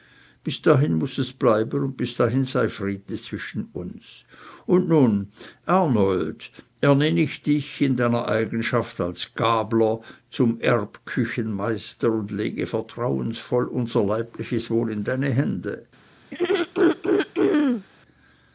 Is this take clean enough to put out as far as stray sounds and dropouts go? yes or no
no